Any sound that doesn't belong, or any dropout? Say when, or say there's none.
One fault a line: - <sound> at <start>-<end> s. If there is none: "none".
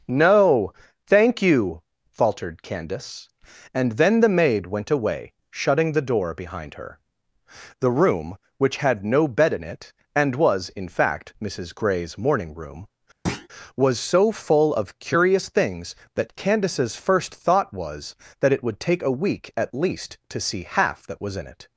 - thud at 13.3-13.5 s